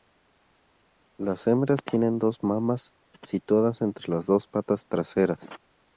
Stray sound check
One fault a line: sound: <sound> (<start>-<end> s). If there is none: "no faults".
no faults